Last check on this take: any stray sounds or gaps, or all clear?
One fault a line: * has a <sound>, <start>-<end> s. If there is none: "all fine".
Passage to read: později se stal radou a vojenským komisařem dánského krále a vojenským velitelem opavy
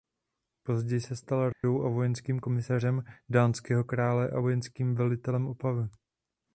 * has a dropout, 1.5-1.6 s